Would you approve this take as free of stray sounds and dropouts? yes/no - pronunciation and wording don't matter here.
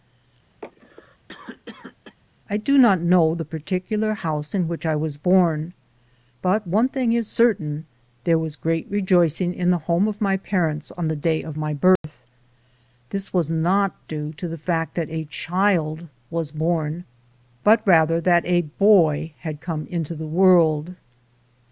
no